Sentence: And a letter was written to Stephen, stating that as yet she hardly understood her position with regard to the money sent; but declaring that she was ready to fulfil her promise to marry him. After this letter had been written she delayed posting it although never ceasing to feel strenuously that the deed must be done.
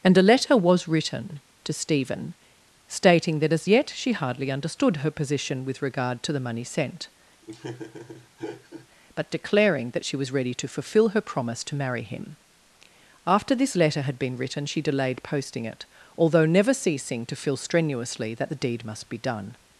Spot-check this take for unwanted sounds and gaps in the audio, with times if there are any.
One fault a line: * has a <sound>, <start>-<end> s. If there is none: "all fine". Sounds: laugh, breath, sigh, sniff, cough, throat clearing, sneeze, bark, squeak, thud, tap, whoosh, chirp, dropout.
* has a laugh, 7.4-8.9 s